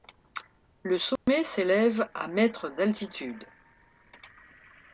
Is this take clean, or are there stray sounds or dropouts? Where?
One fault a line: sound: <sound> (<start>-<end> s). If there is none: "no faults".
sound: dropout (1.2-1.3 s)